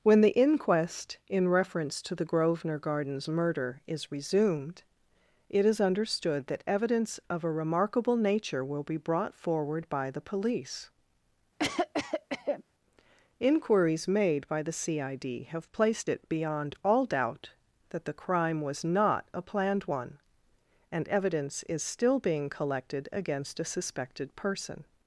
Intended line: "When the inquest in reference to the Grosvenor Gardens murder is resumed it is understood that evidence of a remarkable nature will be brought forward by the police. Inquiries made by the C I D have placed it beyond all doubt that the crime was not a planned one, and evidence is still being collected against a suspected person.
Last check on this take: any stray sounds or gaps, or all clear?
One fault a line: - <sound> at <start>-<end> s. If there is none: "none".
- cough at 11.6-12.6 s